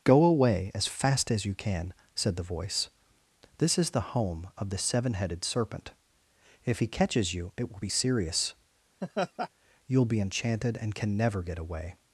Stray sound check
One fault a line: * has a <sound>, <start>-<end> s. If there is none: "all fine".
* has a laugh, 9.0-9.5 s